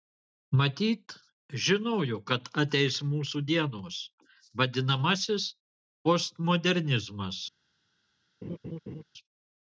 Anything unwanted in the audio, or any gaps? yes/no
yes